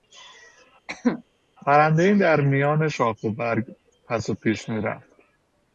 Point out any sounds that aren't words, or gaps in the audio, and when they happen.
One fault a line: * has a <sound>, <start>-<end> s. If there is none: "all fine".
* has a cough, 0.9-1.2 s